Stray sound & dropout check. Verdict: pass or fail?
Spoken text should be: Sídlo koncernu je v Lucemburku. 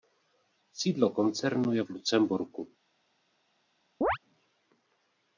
fail